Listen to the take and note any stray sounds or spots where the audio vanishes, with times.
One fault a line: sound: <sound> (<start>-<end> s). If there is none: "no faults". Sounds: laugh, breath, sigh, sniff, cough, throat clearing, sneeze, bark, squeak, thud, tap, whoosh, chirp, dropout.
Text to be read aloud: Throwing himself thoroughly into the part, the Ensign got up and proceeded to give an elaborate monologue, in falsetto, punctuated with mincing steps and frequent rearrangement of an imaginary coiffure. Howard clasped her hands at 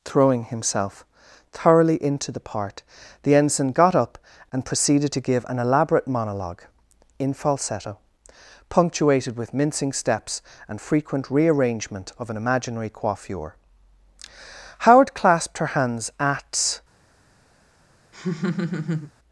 sound: laugh (18.1-19.1 s)